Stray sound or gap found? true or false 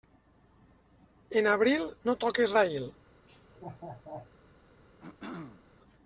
true